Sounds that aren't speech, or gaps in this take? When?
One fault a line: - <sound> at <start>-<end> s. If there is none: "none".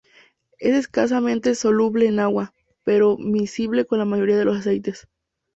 none